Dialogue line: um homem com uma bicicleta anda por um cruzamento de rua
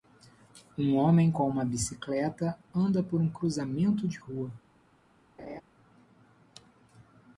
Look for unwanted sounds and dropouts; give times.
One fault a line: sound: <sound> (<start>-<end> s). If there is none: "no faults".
sound: laugh (5.4-5.6 s)